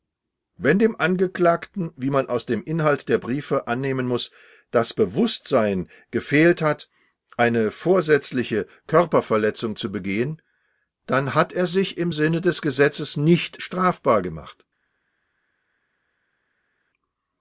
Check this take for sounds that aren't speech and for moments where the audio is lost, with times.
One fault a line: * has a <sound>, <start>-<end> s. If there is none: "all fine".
all fine